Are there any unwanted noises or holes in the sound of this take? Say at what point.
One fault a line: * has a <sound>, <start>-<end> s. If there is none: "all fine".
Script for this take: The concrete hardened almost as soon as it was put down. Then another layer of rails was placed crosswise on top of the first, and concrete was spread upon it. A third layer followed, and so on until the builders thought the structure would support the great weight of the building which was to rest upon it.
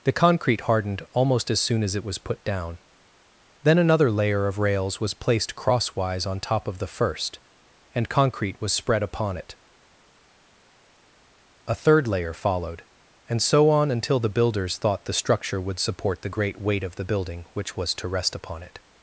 all fine